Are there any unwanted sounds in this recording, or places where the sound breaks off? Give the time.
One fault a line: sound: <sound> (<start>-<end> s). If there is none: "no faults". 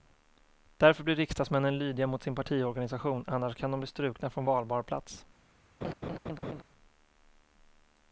sound: laugh (5.8-6.6 s)